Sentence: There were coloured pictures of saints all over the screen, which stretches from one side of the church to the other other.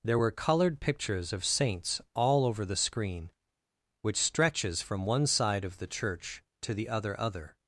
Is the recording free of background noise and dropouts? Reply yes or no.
yes